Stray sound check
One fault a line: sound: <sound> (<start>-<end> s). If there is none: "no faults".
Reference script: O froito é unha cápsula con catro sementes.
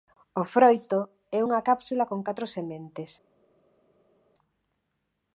no faults